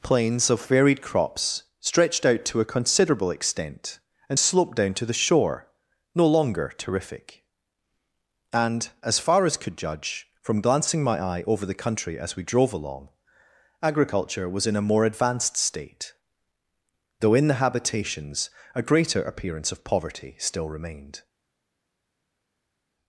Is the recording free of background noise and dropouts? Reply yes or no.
yes